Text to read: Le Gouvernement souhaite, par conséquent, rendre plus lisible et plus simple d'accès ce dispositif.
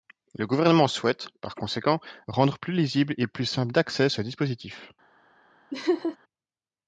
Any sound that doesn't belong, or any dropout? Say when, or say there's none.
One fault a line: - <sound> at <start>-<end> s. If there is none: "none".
- laugh at 5.7-6.2 s